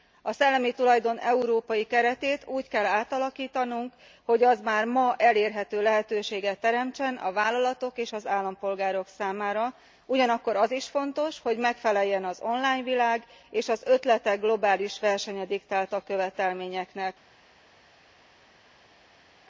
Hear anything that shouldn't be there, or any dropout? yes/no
no